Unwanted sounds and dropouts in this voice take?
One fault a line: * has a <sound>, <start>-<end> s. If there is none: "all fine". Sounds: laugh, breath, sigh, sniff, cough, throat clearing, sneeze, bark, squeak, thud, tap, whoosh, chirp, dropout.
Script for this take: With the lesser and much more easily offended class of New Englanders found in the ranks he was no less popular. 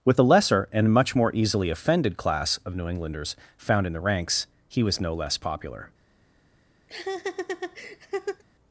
* has a laugh, 6.9-8.4 s